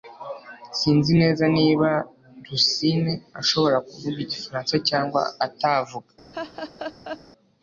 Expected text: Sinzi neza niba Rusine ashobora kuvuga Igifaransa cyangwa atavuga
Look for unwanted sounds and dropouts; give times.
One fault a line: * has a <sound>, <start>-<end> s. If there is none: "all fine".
* has a laugh, 6.3-7.2 s